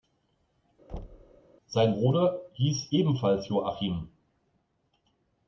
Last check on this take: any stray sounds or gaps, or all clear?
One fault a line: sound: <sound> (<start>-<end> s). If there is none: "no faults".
sound: thud (0.9-1.4 s)